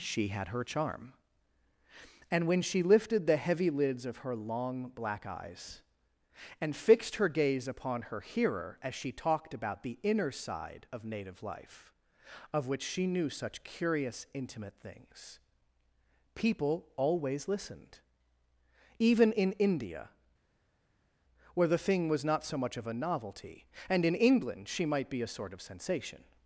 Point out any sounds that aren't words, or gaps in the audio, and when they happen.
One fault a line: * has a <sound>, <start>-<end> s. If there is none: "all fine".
all fine